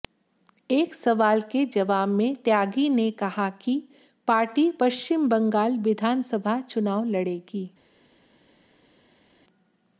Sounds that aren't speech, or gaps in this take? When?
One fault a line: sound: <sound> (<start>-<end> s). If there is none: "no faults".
no faults